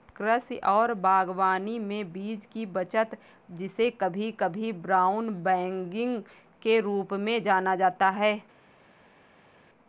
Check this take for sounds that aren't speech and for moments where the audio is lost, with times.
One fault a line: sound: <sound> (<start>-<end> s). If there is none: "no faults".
no faults